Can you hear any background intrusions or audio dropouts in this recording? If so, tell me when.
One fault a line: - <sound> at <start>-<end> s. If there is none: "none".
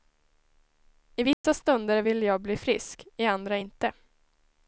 - dropout at 1.3-1.4 s